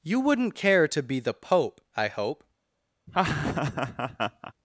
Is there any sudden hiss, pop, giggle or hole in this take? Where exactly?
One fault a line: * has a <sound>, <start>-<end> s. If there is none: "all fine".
* has a laugh, 3.1-4.5 s